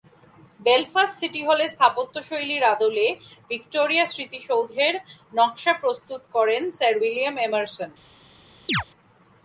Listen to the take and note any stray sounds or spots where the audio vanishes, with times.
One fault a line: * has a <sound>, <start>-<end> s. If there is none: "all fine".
* has a chirp, 8.7-8.8 s